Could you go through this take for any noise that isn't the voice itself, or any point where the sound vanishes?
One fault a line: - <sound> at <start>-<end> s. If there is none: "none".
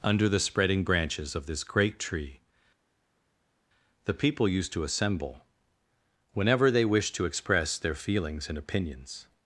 none